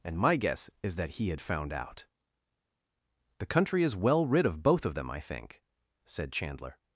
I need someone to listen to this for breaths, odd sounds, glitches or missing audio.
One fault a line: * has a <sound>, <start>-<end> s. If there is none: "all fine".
all fine